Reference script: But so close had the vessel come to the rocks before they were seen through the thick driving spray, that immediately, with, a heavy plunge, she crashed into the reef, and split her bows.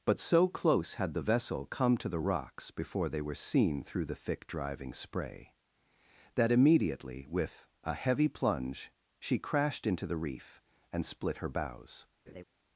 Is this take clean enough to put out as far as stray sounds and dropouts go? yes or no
no